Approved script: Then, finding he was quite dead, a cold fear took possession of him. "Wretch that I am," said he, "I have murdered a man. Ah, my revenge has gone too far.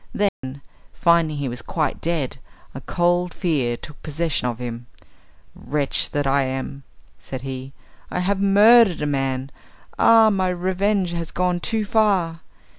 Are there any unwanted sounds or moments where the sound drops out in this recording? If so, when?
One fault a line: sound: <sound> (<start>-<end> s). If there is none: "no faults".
sound: dropout (0.3-0.4 s)